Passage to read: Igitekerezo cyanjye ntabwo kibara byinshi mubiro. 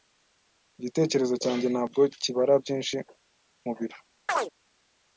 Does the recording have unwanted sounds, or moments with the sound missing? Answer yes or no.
yes